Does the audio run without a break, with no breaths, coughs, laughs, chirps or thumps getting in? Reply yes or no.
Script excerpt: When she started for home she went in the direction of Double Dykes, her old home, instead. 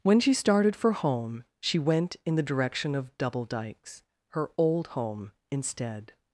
yes